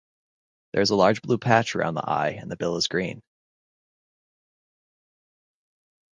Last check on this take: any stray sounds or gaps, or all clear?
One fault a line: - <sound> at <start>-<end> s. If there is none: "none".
none